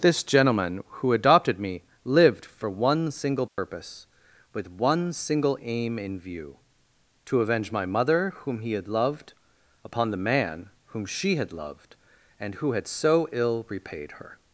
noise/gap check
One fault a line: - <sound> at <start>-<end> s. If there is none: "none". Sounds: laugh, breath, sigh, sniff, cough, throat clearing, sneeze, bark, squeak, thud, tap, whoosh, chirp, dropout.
- dropout at 3.5-3.6 s